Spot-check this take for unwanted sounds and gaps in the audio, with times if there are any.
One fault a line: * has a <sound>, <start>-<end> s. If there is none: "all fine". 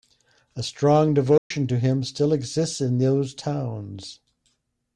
* has a dropout, 1.4-1.5 s